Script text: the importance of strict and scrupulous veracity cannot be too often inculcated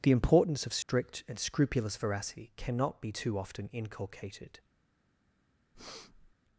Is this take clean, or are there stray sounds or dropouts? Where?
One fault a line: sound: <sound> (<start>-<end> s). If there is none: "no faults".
sound: dropout (0.8-0.9 s)
sound: breath (5.7-6.3 s)